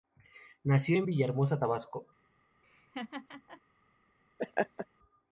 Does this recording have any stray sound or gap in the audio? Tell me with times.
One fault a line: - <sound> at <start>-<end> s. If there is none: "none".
- laugh at 2.6-3.6 s
- laugh at 4.4-4.9 s